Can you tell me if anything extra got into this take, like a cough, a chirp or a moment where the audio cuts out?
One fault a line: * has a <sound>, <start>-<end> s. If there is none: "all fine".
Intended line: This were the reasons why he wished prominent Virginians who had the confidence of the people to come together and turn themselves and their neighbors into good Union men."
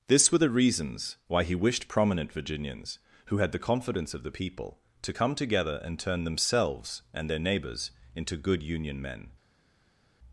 all fine